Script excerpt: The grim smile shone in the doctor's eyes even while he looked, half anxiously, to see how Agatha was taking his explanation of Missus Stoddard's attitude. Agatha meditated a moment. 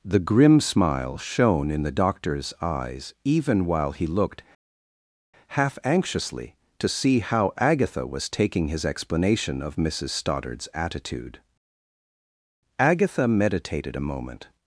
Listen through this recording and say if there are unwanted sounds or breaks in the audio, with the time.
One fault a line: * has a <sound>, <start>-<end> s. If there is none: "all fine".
all fine